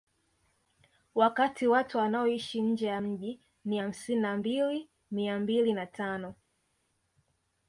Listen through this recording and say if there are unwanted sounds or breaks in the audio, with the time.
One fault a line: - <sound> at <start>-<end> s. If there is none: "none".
none